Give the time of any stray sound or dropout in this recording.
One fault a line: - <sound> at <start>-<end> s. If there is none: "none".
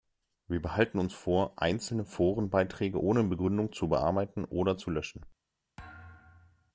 - thud at 5.8-6.7 s